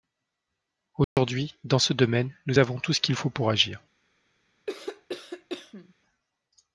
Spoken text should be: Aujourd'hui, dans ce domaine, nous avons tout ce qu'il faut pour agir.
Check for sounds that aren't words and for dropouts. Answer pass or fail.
fail